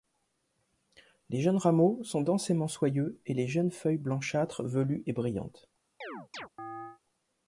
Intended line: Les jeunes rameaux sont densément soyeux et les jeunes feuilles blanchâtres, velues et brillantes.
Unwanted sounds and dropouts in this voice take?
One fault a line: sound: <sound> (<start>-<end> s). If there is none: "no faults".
sound: chirp (6.0-7.0 s)